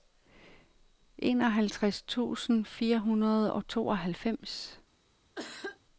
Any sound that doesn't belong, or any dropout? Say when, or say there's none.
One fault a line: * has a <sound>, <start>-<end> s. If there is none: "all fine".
* has a cough, 5.4-5.8 s